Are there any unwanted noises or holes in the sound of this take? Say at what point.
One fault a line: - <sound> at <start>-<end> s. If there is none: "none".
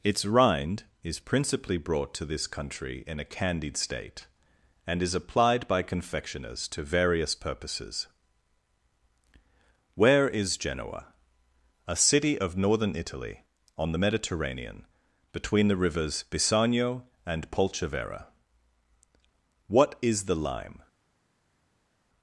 none